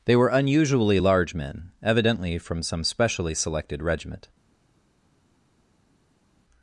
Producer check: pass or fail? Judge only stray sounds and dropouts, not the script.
pass